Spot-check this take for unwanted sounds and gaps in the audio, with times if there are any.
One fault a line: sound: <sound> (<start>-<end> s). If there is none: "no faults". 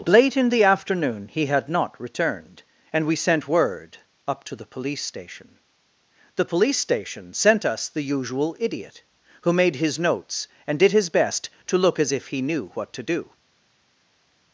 no faults